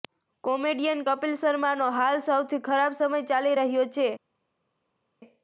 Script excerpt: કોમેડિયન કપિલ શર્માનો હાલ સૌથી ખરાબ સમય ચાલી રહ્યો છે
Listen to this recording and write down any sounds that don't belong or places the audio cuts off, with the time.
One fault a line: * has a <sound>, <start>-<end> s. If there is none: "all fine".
all fine